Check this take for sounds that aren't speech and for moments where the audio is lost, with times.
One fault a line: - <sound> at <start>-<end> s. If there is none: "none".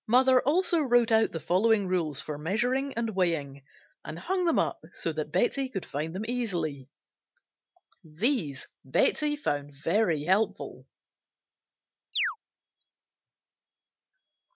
- chirp at 12.1-12.4 s